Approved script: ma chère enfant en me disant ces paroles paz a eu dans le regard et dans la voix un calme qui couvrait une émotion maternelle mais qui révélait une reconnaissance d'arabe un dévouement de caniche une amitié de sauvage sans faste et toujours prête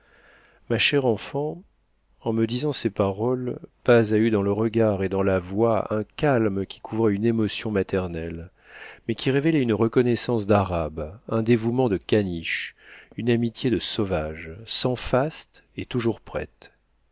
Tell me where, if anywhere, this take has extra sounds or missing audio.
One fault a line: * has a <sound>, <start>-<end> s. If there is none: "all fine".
all fine